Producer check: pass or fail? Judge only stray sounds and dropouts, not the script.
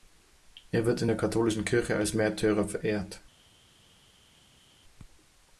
pass